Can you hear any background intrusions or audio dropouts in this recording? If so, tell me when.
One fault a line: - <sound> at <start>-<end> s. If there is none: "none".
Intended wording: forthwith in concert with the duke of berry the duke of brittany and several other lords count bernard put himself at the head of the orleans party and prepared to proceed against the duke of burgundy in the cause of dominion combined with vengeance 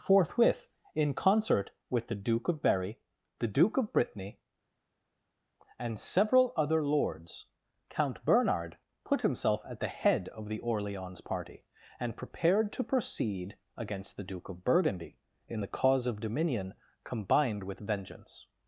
none